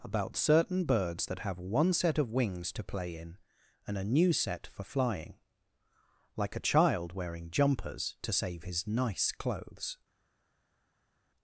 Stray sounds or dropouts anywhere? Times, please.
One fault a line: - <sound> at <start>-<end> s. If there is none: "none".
none